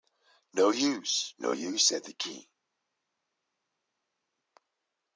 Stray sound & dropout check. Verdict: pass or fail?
pass